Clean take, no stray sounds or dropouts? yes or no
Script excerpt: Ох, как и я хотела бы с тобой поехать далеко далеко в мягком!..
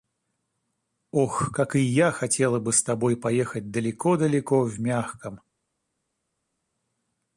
yes